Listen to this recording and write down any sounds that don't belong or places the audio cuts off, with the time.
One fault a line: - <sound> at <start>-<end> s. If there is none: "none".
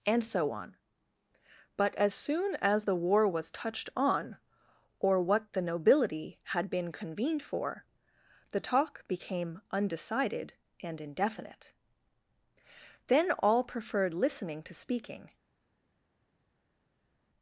none